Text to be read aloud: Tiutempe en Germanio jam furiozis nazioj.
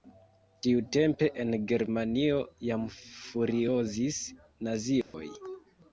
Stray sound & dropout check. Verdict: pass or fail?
fail